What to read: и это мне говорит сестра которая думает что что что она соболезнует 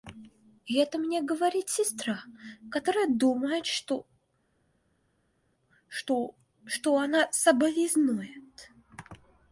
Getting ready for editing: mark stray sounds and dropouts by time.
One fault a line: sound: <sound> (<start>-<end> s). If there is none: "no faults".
no faults